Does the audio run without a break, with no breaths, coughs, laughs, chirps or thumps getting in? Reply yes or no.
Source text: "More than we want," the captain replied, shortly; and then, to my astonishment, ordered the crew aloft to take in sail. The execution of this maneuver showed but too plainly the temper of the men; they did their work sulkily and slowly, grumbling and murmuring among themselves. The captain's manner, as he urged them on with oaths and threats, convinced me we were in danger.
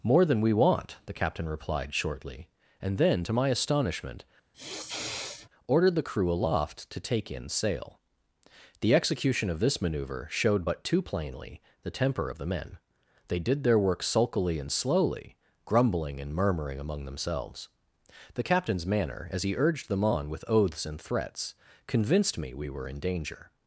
no